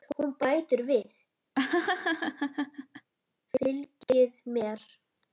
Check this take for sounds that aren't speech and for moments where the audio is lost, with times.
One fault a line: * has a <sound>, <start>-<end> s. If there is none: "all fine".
* has a laugh, 1.5-3.1 s